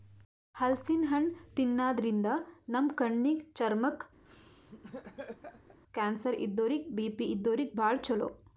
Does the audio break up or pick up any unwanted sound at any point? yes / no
yes